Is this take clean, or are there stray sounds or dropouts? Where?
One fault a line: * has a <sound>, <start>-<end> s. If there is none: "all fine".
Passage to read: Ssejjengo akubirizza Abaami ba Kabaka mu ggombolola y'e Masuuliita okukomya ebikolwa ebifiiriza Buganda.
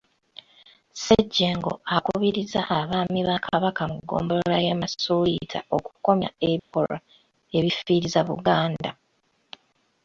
* has a dropout, 6.6-6.7 s